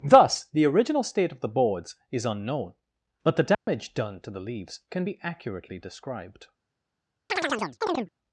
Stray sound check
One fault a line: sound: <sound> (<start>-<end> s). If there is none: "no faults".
sound: dropout (3.5-3.7 s)
sound: chirp (7.3-8.1 s)